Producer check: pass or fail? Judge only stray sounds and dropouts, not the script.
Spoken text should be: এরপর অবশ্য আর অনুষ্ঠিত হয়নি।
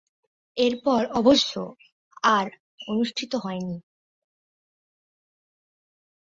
pass